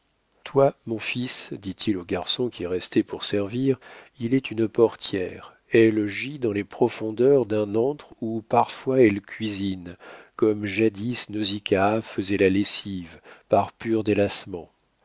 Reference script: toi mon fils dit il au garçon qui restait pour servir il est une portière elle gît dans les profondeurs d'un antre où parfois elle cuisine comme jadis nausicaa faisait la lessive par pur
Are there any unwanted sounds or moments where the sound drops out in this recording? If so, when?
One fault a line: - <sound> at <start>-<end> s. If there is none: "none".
none